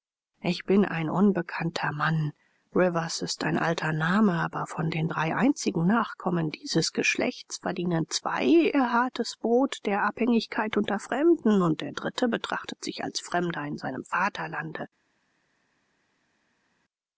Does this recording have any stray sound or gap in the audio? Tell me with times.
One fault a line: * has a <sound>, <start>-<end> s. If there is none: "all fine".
all fine